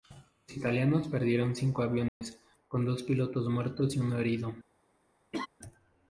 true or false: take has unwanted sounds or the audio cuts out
true